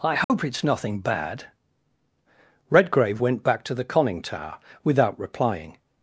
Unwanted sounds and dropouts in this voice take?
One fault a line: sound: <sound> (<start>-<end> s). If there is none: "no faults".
sound: dropout (0.2-0.3 s)